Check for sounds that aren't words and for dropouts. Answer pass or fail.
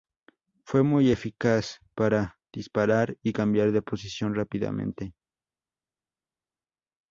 pass